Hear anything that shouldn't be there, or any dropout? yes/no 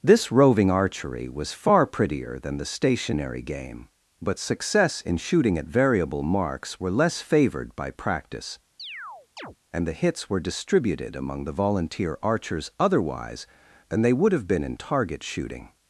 yes